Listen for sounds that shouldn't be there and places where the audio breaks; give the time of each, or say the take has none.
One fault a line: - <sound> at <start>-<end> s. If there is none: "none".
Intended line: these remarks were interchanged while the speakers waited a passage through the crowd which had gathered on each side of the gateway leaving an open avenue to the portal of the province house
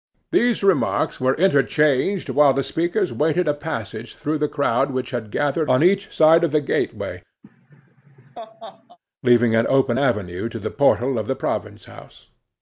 - laugh at 7.4-9.0 s